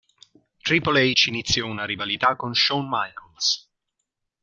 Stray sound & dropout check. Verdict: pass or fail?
pass